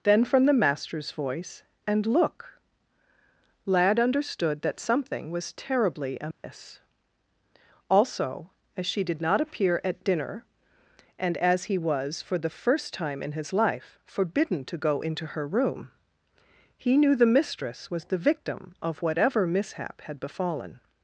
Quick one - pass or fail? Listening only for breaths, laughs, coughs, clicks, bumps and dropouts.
fail